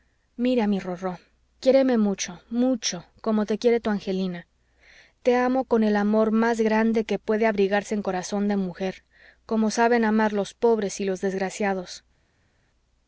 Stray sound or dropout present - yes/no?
no